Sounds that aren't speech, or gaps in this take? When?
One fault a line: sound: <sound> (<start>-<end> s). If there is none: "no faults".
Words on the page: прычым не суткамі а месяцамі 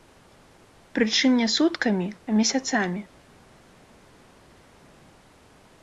no faults